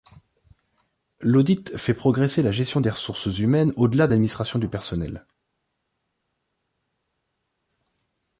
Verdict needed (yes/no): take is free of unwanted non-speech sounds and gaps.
yes